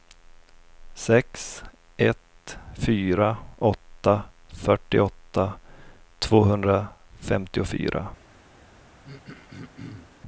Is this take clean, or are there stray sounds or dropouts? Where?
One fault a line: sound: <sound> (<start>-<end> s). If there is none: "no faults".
sound: throat clearing (9.0-10.2 s)